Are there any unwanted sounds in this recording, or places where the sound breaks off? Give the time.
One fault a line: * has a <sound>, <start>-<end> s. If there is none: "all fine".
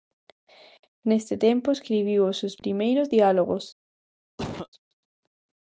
* has a cough, 4.4-4.7 s